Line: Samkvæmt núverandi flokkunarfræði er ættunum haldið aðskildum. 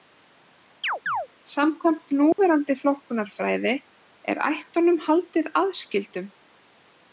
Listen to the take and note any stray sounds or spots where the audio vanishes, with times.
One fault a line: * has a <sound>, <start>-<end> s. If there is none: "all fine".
* has a chirp, 0.8-1.3 s
* has a dropout, 2.3-2.4 s